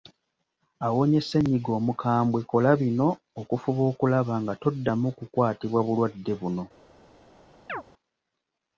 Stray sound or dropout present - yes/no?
yes